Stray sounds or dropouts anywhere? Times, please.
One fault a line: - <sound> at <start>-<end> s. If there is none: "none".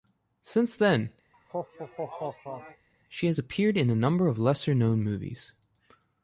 - laugh at 1.3-2.9 s